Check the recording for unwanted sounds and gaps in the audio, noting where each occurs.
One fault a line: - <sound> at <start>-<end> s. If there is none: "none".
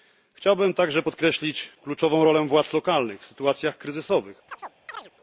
- chirp at 4.5-5.1 s